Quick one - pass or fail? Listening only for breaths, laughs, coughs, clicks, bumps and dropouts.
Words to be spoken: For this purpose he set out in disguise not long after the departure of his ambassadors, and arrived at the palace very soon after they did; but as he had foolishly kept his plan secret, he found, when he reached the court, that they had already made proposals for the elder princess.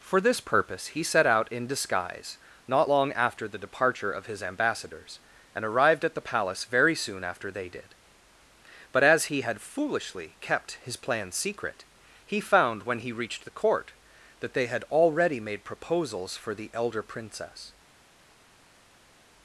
pass